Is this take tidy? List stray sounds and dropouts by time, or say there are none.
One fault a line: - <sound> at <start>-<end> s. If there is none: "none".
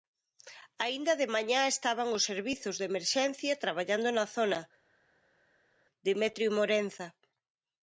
none